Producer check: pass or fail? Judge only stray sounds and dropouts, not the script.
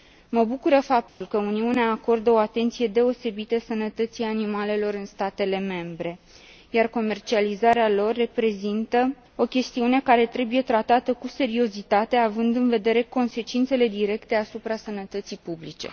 fail